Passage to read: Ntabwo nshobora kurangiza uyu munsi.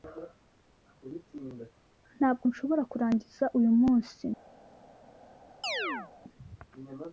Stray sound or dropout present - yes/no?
yes